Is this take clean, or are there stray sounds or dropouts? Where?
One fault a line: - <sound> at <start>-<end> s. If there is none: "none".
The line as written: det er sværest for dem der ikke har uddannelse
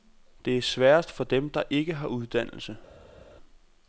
none